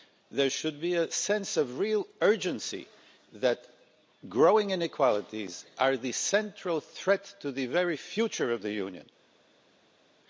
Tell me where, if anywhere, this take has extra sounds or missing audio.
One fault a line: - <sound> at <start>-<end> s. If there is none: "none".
none